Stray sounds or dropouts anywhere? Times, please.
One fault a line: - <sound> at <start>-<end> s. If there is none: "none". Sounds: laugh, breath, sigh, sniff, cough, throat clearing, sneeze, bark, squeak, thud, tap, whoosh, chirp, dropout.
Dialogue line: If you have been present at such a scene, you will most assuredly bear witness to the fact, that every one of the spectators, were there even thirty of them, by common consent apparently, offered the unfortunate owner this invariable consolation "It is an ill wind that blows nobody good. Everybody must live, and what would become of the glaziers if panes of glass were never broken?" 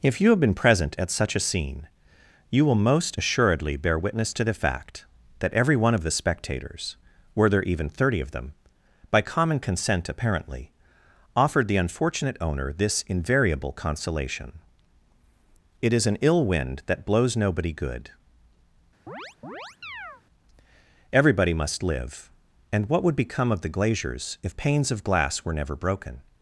- chirp at 19.1-20.2 s